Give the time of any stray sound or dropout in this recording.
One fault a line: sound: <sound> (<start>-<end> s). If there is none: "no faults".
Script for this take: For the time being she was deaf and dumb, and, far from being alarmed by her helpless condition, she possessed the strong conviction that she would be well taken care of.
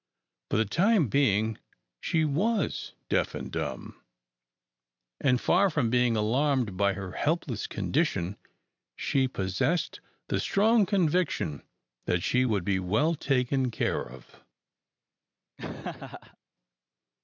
sound: laugh (15.6-16.4 s)